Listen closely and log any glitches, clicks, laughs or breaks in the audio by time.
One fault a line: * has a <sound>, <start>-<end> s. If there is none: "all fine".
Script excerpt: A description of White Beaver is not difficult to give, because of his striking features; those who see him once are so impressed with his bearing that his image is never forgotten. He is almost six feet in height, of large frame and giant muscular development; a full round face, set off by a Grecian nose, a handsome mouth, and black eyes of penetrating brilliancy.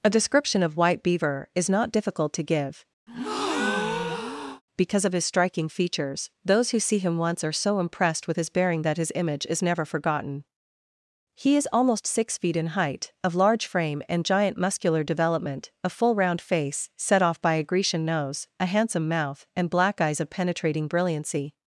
* has a breath, 3.1-4.6 s